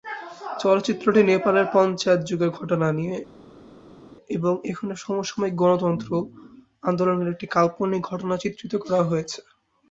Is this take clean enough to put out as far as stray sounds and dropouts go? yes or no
yes